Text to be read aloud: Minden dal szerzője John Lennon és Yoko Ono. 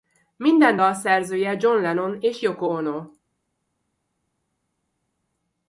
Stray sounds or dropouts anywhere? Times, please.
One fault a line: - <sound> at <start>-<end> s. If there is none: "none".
none